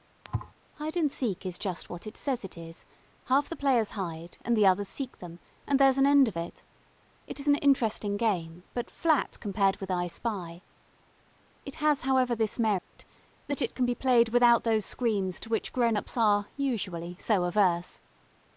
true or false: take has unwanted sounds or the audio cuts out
true